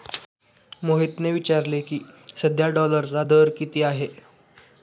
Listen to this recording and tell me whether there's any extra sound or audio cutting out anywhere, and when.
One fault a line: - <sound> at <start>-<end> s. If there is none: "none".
none